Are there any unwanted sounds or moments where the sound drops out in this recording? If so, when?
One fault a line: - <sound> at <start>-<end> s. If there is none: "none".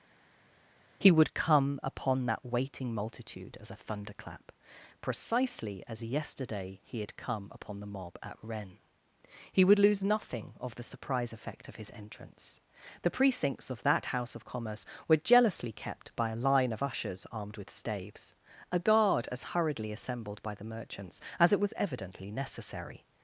none